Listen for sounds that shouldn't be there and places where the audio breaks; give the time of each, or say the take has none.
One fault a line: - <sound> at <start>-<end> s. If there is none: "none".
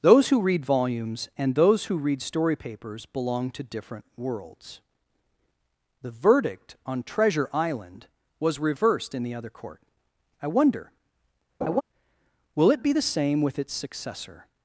- laugh at 11.6-11.8 s